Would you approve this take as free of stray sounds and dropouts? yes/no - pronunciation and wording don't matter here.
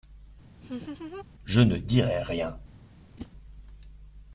no